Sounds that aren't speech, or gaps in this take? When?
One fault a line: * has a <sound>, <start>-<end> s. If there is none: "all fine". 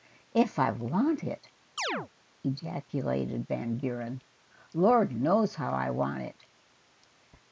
* has a chirp, 1.8-2.1 s